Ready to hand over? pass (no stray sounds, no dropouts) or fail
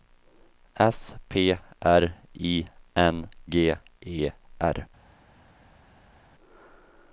pass